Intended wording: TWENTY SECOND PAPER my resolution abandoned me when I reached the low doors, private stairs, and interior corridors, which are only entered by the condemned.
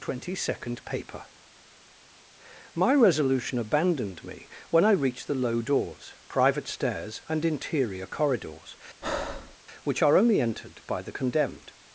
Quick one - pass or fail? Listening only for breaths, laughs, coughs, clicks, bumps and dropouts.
fail